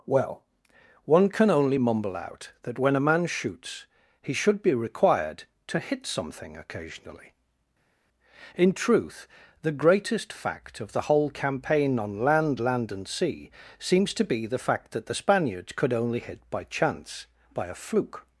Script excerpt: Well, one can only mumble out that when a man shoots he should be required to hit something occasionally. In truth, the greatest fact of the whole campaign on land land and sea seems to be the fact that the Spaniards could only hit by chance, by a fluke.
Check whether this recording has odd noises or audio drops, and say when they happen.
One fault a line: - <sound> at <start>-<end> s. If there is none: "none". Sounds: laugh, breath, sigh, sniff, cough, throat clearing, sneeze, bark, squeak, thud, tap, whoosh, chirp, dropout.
none